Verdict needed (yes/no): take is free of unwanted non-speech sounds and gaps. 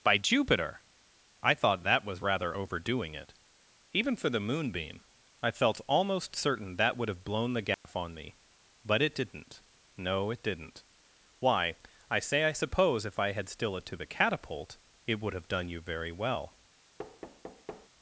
no